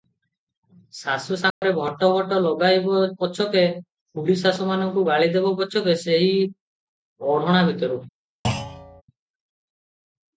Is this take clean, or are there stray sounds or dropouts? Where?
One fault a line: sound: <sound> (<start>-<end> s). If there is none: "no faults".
sound: dropout (1.5-1.6 s)
sound: thud (8.4-9.0 s)